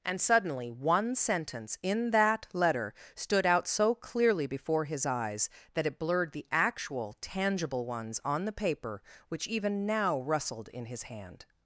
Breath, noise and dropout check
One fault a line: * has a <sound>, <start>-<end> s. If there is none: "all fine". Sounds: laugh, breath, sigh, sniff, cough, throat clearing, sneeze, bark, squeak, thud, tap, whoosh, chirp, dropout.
all fine